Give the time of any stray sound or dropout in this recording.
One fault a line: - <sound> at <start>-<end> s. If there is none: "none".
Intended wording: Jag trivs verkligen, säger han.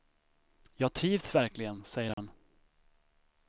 - dropout at 2.1-2.2 s